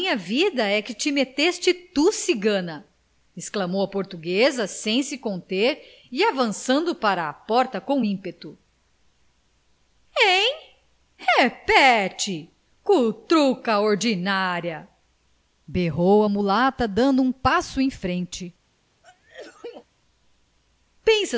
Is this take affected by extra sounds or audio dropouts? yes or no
yes